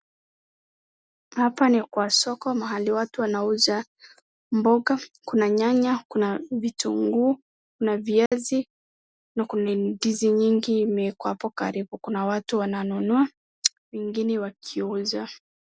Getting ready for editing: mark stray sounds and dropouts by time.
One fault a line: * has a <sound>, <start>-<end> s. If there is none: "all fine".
* has a dropout, 8.3-8.3 s